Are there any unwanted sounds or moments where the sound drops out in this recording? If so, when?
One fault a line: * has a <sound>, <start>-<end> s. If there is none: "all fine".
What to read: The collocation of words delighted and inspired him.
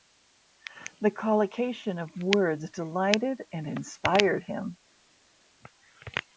all fine